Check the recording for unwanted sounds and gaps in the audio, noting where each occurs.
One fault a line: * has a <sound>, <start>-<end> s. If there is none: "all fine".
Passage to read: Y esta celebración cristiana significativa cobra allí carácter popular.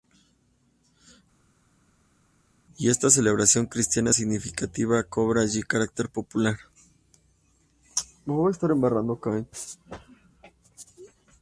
all fine